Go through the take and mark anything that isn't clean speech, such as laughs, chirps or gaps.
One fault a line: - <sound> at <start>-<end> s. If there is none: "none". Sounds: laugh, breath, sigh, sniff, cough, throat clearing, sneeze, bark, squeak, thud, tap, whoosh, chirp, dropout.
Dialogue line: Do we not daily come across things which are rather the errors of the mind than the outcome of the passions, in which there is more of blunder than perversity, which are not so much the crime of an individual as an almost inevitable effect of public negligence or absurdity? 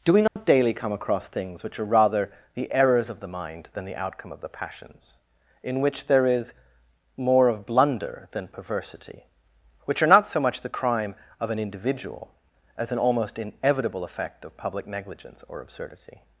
- dropout at 0.3-0.4 s